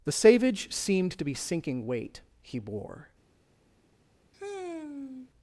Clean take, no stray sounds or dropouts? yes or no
no